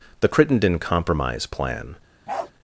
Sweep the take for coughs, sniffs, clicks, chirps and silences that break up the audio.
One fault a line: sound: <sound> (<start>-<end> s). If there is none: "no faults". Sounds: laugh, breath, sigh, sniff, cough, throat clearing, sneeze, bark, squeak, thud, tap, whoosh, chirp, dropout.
sound: bark (2.3-2.5 s)